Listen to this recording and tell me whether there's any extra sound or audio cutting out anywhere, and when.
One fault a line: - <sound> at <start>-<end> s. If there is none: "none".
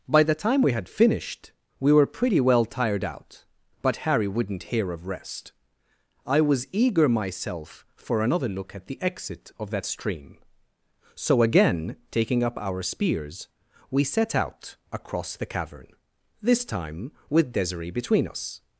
none